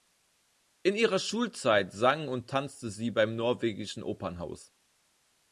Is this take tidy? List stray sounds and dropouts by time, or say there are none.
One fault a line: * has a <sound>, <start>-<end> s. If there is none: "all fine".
all fine